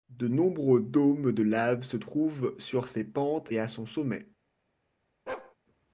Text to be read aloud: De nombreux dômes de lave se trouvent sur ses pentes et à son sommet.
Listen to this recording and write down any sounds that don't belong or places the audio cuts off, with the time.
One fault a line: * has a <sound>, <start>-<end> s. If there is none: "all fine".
* has a bark, 5.3-5.6 s